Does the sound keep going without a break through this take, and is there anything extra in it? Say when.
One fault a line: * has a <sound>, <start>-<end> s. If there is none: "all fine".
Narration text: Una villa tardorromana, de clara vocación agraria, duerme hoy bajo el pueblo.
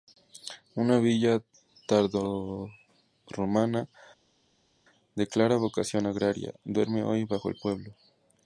all fine